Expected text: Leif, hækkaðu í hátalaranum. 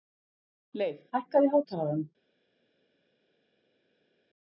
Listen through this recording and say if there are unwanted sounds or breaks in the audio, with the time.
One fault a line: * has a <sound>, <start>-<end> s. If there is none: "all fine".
all fine